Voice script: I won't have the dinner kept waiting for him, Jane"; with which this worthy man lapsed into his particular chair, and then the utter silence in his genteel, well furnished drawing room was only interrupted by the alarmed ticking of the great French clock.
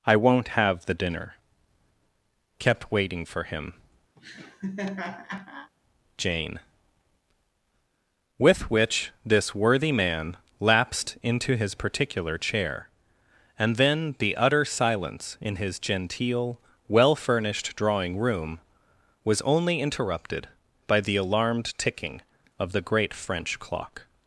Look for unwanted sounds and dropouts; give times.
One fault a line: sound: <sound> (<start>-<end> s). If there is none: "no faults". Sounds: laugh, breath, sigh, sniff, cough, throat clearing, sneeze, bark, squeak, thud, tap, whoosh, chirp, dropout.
sound: laugh (4.2-5.7 s)